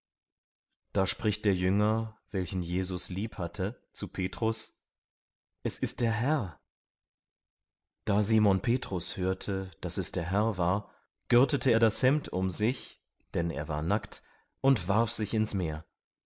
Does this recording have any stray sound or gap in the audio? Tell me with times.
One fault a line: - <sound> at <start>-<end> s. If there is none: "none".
none